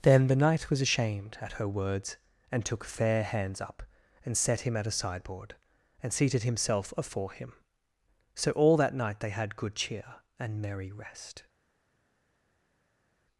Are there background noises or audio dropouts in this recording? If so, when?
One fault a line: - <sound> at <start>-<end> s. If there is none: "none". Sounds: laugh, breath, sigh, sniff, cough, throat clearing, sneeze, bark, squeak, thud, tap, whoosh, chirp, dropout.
none